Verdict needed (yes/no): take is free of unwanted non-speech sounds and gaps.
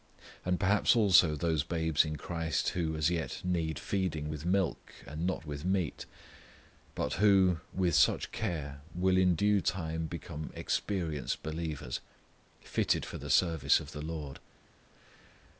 yes